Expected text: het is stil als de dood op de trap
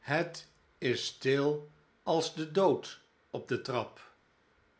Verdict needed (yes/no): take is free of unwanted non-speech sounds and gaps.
yes